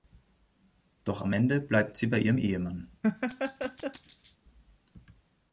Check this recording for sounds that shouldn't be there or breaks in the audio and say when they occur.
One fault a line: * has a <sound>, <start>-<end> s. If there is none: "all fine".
* has a laugh, 3.0-4.4 s